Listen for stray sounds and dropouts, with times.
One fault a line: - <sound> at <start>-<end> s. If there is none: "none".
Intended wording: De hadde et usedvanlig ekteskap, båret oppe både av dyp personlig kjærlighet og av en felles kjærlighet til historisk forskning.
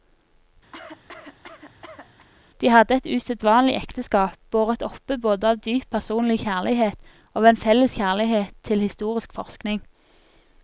- cough at 0.7-2.3 s